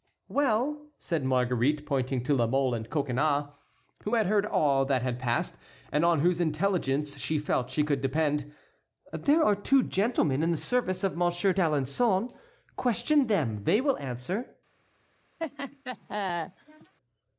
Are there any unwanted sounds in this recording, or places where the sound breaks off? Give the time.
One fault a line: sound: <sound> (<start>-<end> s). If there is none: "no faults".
sound: laugh (15.4-16.9 s)